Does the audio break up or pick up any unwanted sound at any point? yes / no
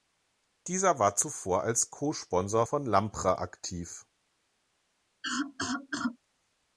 yes